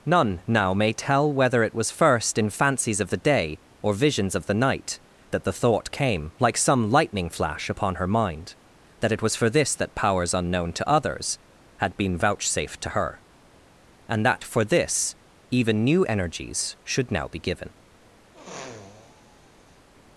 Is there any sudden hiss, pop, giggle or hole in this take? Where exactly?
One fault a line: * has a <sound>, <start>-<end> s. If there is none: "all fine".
* has a sniff, 18.3-19.9 s